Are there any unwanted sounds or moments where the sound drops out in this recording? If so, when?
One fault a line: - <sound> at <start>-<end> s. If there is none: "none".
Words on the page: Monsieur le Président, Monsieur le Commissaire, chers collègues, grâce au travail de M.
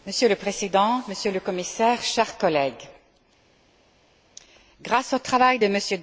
none